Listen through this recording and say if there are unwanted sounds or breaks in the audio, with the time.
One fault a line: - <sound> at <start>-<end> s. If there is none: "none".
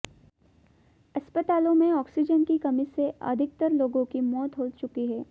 none